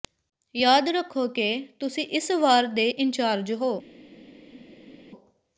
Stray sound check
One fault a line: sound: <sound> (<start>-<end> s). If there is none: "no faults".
no faults